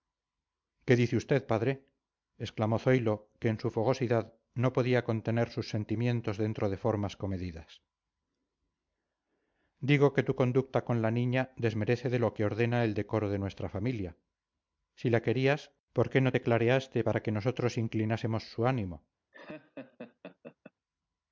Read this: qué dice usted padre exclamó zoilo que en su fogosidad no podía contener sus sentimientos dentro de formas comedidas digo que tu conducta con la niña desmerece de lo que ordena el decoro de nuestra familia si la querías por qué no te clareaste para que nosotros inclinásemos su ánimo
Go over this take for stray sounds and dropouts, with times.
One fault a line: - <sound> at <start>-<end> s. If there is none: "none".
- laugh at 19.3-20.7 s